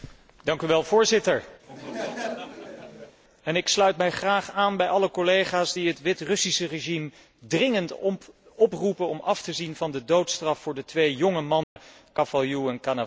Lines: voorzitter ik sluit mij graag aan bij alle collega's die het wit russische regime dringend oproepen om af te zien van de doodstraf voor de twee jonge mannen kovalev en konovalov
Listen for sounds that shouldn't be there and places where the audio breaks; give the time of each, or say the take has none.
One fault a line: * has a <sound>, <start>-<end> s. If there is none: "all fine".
* has a laugh, 1.6-3.2 s
* has a dropout, 11.6-11.8 s